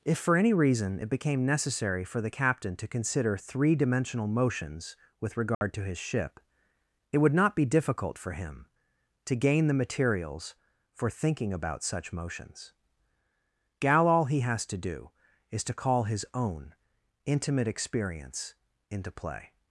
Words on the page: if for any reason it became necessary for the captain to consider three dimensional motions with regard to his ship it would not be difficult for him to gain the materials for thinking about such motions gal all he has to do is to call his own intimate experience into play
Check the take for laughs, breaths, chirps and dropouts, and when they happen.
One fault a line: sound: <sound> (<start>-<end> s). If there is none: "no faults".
sound: dropout (5.5-5.6 s)